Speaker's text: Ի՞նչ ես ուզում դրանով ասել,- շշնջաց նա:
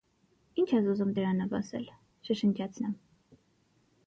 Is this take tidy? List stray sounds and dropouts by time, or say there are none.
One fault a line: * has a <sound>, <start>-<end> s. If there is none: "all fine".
all fine